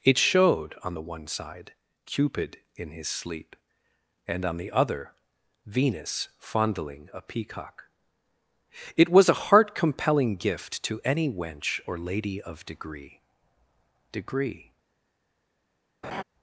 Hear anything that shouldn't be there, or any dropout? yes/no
yes